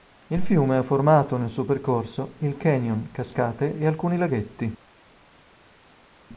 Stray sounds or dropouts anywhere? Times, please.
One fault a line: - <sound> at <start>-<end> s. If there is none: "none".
none